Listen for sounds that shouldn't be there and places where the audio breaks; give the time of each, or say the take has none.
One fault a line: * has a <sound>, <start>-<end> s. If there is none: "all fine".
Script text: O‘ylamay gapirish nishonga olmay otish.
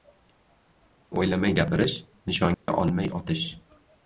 * has a dropout, 2.5-2.7 s